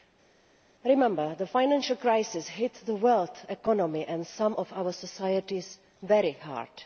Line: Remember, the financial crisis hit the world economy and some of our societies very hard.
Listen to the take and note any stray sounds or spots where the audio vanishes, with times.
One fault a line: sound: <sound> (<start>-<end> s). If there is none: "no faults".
no faults